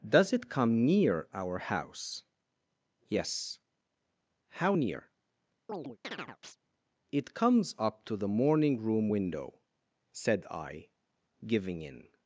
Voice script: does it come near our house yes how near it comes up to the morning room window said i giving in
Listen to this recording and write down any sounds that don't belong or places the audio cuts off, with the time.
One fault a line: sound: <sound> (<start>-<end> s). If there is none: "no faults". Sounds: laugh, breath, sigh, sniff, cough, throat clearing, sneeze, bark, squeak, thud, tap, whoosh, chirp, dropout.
sound: chirp (5.7-6.6 s)